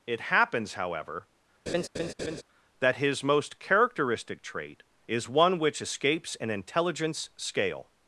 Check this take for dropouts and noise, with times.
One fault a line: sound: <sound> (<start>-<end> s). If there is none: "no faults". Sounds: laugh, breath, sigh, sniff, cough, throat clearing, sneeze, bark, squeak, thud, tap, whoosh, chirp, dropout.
sound: laugh (1.7-2.4 s)